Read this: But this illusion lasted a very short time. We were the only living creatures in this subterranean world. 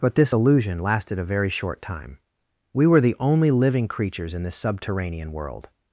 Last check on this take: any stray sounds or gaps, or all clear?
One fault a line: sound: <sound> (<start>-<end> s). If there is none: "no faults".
no faults